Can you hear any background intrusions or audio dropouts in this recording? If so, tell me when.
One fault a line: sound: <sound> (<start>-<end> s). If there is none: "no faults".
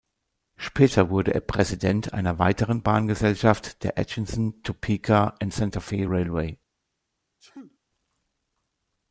sound: sneeze (7.4-7.8 s)